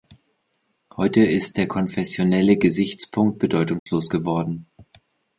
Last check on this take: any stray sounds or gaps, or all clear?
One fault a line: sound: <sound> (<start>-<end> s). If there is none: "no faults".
sound: dropout (3.8-3.9 s)